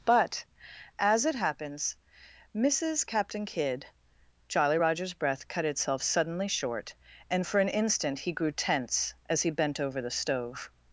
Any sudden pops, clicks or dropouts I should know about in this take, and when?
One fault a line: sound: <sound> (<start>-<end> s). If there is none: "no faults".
no faults